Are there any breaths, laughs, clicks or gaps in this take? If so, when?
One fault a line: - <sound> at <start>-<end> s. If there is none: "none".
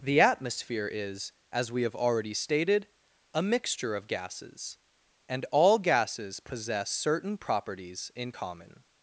none